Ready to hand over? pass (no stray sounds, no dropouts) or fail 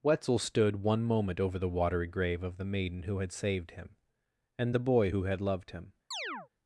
fail